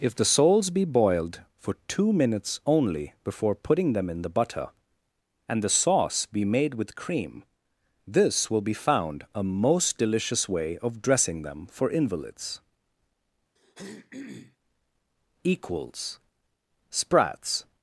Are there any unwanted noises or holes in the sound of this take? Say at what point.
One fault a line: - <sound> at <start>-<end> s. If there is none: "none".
- throat clearing at 13.6-14.6 s